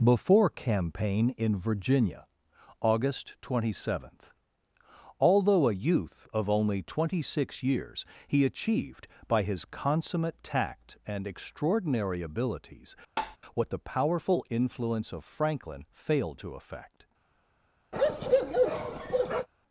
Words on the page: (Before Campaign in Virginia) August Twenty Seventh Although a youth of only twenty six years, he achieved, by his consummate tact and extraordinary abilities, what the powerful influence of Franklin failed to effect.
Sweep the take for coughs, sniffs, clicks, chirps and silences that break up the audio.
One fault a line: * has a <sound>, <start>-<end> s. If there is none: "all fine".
* has a tap, 13.2-13.4 s
* has a bark, 17.9-19.5 s